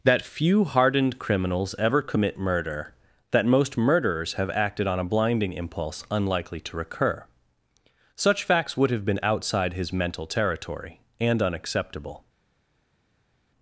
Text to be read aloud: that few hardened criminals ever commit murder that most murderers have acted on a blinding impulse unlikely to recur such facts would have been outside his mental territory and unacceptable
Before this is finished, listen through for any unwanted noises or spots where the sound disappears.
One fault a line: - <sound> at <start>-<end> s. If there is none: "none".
none